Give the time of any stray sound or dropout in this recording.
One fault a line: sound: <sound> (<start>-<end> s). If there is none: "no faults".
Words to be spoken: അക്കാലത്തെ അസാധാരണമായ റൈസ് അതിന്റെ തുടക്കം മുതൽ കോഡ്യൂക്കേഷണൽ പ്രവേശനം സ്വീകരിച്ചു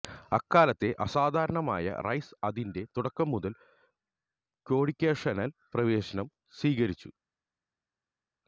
no faults